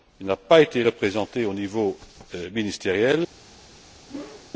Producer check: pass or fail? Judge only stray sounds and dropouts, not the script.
fail